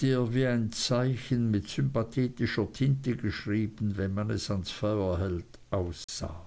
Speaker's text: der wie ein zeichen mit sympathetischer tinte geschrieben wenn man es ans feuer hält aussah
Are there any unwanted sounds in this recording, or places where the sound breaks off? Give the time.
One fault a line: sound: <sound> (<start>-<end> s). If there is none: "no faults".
sound: dropout (6.0-6.1 s)